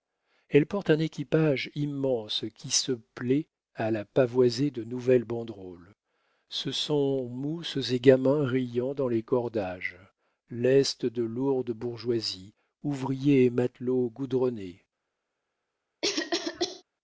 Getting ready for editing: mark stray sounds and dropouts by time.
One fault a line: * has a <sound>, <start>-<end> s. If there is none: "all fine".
* has a cough, 16.0-16.8 s